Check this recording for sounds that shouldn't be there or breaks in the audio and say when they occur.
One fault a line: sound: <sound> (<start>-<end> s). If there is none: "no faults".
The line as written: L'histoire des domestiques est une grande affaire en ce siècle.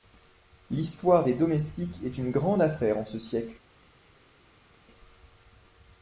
no faults